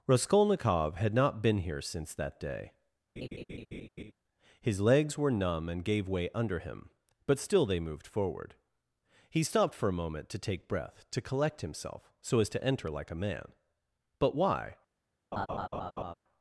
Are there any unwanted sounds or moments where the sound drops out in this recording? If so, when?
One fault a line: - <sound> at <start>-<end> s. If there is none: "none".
- laugh at 3.2-4.1 s
- laugh at 15.3-16.1 s